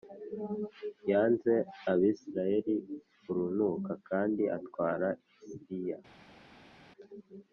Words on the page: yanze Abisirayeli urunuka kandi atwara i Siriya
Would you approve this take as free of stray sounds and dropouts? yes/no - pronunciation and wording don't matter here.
yes